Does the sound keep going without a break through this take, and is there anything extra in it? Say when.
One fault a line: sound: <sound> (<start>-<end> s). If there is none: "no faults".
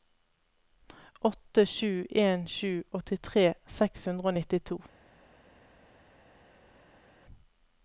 no faults